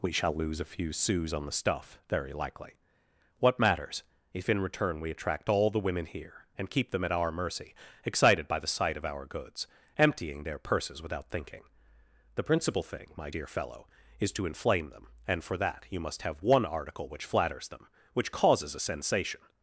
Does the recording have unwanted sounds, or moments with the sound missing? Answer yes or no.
no